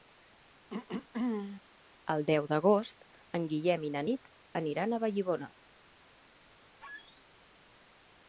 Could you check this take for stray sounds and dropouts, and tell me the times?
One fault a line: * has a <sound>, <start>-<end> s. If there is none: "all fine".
* has a throat clearing, 0.7-1.6 s
* has a squeak, 6.8-7.2 s